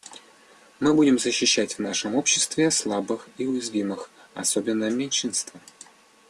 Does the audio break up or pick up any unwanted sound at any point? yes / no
no